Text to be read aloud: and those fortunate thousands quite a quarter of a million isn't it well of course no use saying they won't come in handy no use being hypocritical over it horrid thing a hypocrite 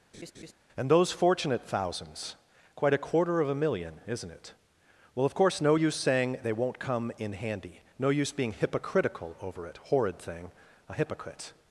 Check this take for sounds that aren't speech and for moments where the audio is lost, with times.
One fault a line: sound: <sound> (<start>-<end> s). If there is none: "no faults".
sound: laugh (0.1-0.5 s)